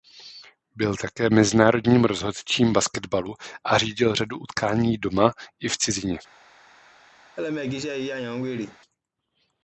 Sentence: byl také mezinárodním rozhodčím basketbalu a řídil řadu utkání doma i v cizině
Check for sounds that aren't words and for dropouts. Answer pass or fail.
fail